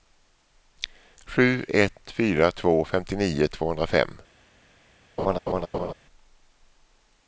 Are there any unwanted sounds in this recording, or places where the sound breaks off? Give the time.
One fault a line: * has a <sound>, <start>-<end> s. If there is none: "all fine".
* has a laugh, 5.2-5.9 s